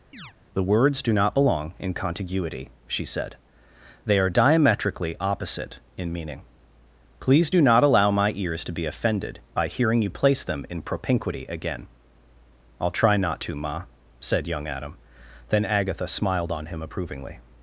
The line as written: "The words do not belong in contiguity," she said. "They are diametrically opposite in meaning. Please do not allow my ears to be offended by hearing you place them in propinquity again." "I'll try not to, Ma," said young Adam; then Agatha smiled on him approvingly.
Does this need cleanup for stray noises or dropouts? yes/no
yes